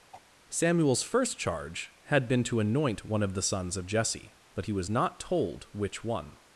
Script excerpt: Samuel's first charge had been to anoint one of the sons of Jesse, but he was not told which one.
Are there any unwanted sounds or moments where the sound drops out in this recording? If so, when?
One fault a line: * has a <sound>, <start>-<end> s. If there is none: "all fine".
* has a throat clearing, 0.1-0.3 s